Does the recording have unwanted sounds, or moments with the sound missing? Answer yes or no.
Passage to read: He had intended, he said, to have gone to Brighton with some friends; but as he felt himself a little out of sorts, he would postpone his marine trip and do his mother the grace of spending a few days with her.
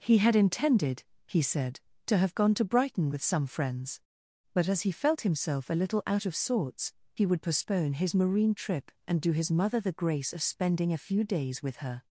no